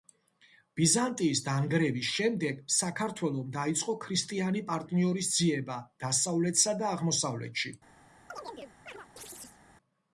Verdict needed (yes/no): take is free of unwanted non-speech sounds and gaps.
no